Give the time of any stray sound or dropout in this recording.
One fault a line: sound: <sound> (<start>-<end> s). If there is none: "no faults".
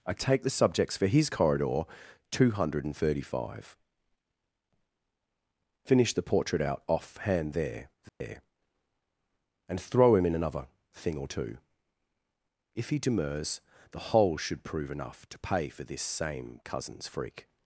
sound: dropout (8.1-8.2 s)